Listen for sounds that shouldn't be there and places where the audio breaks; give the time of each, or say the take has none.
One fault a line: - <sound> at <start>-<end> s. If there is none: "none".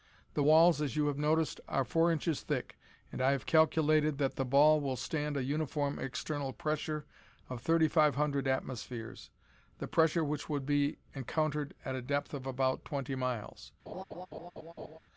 - laugh at 13.9-15.0 s